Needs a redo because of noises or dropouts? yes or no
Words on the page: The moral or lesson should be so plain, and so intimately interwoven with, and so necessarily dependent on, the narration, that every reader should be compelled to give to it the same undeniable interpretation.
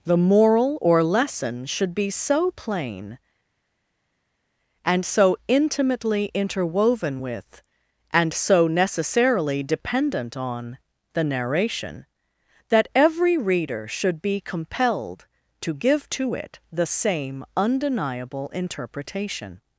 no